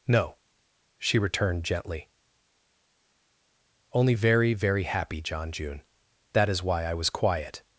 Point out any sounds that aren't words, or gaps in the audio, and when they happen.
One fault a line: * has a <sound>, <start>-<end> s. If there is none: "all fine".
all fine